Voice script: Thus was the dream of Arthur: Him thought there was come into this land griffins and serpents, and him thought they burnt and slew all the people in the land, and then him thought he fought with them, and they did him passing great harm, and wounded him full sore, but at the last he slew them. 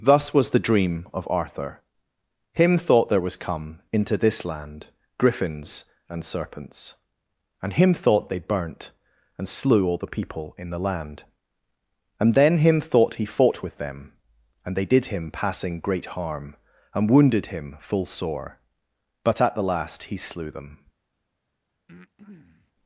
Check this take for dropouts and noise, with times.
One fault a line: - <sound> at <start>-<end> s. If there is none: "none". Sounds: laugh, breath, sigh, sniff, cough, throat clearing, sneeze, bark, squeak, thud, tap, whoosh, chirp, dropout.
- breath at 21.9-22.7 s